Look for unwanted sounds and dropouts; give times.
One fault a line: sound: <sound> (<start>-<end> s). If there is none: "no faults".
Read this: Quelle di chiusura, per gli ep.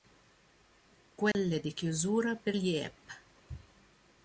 sound: dropout (1.3-1.3 s)